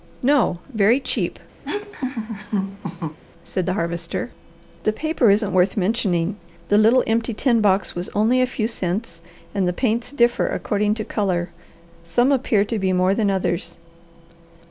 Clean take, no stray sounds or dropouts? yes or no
no